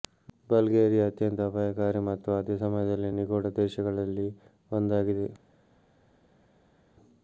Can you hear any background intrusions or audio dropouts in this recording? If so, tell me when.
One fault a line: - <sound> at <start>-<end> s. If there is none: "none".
none